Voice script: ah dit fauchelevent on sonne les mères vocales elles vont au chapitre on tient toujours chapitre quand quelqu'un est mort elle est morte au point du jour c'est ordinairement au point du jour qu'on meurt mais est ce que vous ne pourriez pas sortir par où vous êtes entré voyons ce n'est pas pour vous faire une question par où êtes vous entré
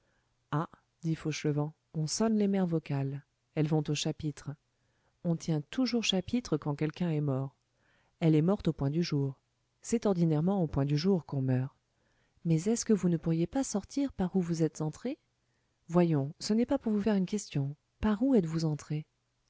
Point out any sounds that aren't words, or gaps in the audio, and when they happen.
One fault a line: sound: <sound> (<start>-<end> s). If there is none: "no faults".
no faults